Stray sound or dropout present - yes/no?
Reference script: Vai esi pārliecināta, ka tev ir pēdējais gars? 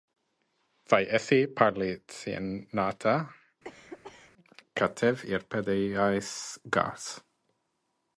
yes